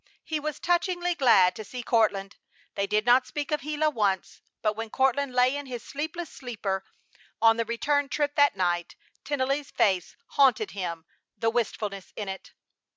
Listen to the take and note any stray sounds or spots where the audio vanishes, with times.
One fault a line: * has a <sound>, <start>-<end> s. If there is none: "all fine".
all fine